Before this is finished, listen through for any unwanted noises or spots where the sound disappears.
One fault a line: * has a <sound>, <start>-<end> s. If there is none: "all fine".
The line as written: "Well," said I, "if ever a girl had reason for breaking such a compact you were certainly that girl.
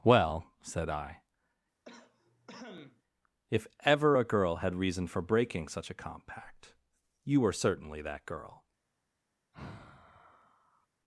* has a cough, 1.8-3.0 s
* has a sigh, 9.5-10.9 s